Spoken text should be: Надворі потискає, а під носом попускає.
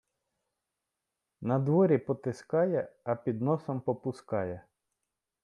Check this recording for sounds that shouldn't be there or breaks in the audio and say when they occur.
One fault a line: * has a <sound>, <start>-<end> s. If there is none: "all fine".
all fine